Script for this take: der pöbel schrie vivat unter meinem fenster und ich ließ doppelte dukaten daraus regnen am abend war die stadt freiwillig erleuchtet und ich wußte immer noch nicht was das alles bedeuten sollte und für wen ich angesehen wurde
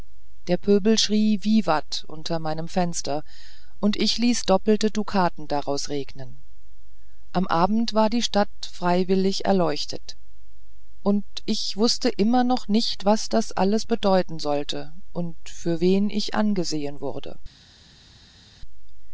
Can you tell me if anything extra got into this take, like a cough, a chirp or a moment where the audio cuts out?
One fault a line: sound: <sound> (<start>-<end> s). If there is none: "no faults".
no faults